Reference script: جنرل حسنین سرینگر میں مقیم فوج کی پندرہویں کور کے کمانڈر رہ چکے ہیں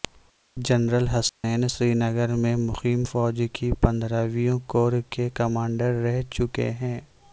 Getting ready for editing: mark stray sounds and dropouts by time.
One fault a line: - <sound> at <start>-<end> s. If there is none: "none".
- dropout at 1.3-1.4 s